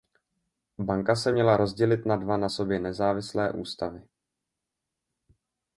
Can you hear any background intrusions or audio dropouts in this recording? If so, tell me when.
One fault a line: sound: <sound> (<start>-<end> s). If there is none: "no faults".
no faults